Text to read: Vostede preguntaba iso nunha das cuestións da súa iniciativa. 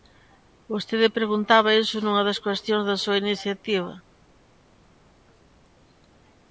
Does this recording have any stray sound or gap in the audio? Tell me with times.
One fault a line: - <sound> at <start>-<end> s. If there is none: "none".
none